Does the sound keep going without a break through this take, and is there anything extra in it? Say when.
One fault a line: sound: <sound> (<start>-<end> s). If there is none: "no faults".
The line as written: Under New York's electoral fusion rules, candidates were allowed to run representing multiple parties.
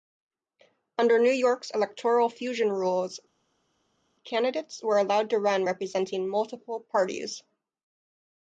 no faults